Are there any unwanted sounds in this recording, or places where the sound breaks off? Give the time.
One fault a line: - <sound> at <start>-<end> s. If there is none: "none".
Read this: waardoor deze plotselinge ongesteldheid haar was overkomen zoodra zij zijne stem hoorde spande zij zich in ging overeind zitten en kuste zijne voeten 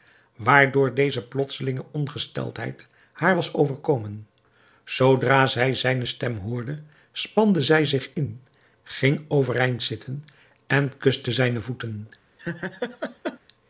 - laugh at 12.4-13.4 s